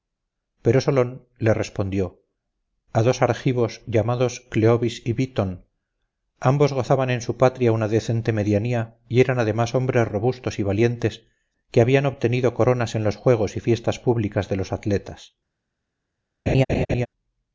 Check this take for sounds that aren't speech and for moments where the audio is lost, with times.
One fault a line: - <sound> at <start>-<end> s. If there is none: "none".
- laugh at 16.5-17.1 s